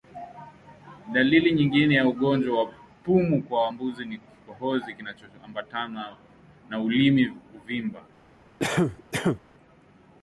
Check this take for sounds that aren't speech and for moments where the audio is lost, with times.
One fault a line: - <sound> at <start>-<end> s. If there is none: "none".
- cough at 8.6-9.4 s